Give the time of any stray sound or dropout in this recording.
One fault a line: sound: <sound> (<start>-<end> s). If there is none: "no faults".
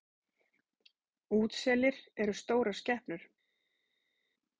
no faults